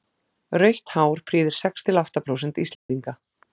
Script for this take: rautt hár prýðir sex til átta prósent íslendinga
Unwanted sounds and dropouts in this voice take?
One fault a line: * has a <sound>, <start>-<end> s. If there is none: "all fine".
* has a dropout, 2.7-2.9 s